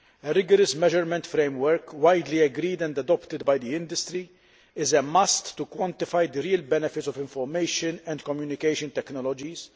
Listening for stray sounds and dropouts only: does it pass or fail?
pass